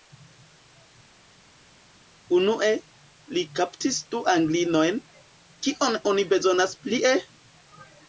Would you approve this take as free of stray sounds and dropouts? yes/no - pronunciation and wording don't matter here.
yes